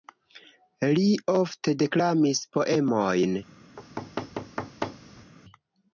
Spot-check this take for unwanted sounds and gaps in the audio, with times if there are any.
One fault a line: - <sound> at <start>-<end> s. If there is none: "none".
- thud at 3.8-5.3 s